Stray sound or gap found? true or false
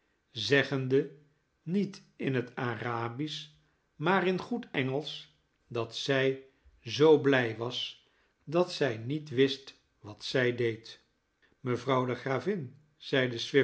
false